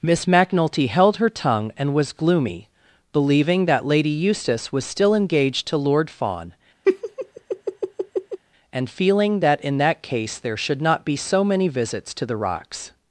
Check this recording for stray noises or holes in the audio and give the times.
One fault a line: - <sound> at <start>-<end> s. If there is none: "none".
- laugh at 6.8-8.4 s